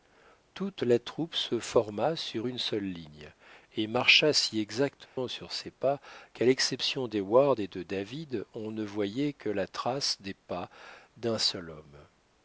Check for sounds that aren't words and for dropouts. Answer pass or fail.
fail